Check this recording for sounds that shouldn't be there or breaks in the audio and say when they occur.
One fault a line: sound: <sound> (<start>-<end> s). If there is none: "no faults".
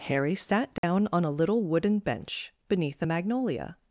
sound: dropout (0.8-0.8 s)